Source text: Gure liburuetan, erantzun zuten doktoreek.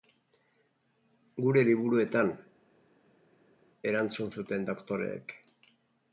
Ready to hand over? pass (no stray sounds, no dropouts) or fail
pass